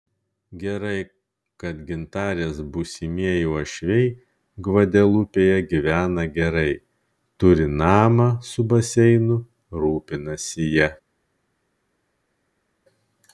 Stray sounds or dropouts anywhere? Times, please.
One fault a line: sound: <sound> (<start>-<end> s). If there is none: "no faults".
no faults